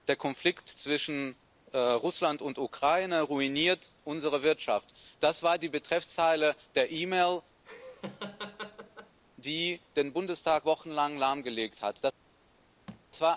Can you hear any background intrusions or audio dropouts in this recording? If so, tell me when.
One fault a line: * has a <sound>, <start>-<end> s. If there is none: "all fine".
* has a laugh, 7.6-9.2 s
* has a thud, 12.9-13.1 s